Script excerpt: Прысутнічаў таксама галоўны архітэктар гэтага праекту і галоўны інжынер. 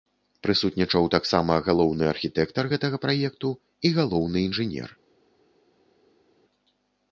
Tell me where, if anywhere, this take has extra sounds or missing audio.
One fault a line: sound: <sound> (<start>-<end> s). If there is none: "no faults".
no faults